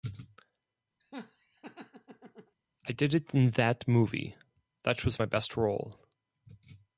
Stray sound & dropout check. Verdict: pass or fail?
fail